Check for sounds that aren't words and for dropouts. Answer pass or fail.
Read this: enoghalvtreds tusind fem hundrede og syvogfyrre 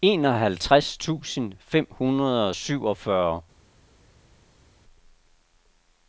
pass